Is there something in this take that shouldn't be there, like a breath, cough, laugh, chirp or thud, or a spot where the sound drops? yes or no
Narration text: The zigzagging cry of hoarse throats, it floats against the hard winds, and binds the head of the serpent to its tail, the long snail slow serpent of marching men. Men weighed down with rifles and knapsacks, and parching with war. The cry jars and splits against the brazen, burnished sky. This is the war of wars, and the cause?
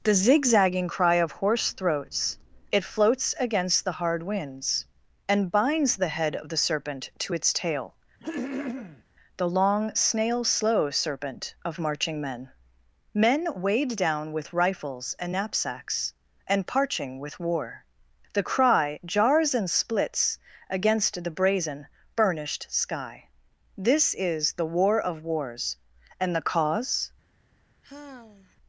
yes